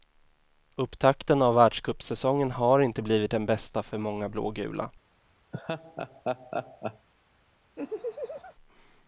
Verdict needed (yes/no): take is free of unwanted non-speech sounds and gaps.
no